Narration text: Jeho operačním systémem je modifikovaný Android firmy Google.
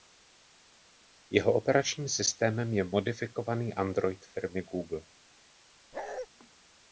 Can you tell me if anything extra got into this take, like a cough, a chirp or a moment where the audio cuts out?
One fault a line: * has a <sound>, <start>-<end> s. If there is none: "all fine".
* has a bark, 5.9-6.3 s